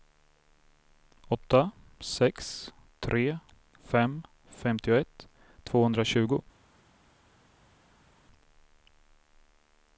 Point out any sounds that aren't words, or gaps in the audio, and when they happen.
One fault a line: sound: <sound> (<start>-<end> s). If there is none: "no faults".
no faults